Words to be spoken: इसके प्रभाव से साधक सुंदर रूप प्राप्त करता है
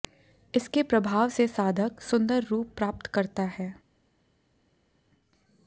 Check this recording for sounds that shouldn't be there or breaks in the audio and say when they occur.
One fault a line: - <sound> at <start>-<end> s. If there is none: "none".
none